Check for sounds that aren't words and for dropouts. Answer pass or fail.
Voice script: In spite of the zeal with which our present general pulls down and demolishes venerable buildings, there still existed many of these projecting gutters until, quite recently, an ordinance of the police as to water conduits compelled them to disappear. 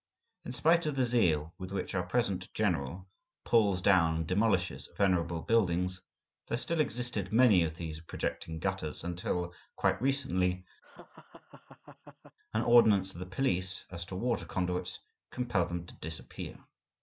fail